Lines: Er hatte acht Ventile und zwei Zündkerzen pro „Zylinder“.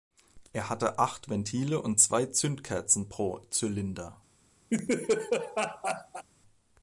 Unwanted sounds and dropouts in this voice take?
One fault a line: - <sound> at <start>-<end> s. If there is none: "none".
- laugh at 4.7-6.2 s